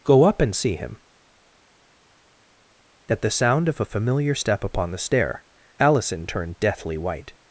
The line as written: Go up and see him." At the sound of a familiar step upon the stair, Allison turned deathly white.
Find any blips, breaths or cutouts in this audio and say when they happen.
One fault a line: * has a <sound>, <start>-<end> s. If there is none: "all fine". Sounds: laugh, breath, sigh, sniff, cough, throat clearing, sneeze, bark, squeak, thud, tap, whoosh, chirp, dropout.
all fine